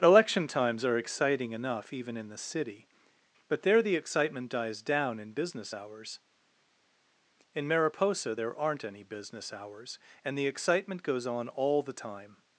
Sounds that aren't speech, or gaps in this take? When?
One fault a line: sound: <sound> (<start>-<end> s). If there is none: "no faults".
no faults